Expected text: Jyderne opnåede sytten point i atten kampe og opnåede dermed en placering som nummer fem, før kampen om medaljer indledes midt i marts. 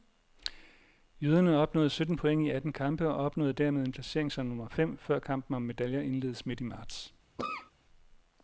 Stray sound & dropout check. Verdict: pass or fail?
fail